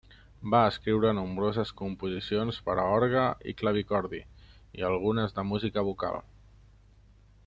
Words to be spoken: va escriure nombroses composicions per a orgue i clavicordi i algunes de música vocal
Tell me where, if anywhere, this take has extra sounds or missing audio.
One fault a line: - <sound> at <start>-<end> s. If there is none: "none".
none